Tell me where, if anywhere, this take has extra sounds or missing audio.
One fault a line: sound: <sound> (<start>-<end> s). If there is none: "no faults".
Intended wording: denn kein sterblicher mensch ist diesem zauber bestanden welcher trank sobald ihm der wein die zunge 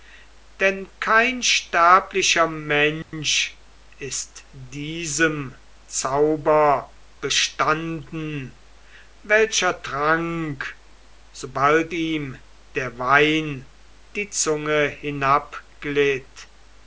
sound: dropout (3.0-3.1 s)